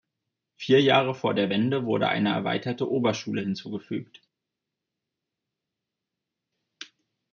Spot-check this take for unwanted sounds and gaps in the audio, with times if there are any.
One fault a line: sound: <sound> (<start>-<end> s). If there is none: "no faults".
no faults